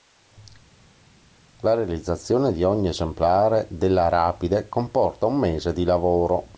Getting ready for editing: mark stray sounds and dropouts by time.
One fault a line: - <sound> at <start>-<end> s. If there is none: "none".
none